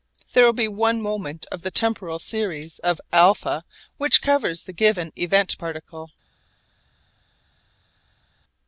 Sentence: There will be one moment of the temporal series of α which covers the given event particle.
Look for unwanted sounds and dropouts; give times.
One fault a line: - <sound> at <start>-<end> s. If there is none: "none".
none